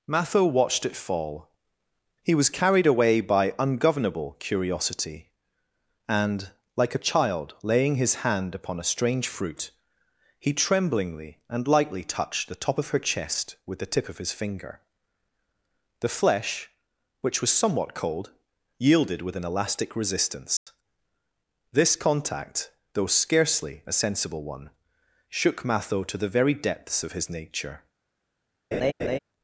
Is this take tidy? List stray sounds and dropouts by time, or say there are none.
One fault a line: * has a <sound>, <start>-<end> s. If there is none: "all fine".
* has a dropout, 20.6-20.7 s
* has a laugh, 28.7-29.2 s